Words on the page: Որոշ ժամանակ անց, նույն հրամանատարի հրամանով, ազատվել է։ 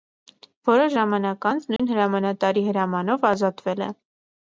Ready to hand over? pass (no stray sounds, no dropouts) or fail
fail